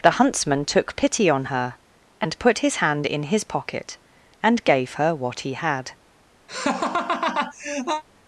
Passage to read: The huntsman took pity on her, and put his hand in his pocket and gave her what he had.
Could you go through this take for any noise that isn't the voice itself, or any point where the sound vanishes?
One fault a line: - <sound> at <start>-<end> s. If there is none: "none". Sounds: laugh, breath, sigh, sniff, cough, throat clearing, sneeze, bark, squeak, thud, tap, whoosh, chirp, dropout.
- laugh at 6.5-8.0 s